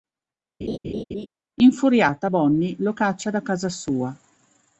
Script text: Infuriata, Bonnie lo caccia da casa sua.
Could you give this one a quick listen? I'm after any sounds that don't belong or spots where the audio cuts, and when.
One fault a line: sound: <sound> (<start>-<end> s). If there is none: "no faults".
sound: laugh (0.6-1.3 s)